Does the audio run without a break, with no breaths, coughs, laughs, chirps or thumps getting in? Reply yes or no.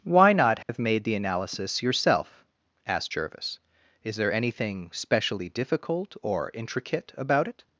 no